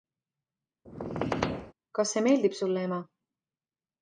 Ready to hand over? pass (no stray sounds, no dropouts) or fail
fail